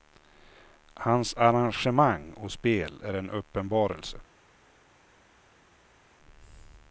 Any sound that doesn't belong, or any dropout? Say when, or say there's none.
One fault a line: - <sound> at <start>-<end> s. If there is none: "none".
none